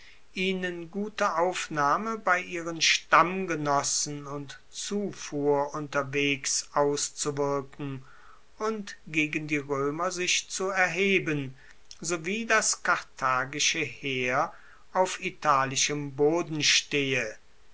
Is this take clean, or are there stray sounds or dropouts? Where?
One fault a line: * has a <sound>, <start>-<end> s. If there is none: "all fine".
all fine